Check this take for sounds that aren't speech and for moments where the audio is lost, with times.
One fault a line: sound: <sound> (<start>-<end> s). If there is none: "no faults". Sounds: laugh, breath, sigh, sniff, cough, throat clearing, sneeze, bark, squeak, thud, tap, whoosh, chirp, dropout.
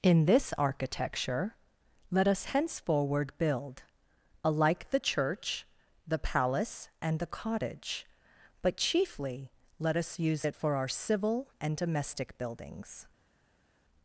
no faults